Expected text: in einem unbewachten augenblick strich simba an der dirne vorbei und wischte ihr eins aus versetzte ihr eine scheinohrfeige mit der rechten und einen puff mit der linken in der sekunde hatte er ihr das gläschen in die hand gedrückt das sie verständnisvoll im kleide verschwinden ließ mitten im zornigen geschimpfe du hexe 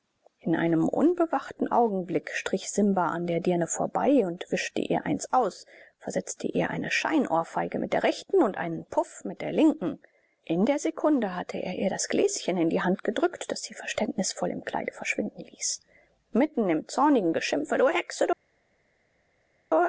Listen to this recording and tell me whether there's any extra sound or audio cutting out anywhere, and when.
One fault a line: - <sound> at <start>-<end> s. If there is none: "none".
none